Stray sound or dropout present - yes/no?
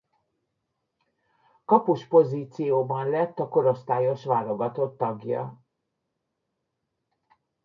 no